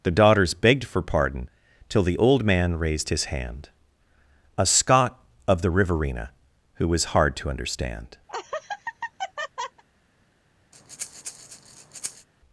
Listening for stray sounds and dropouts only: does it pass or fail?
fail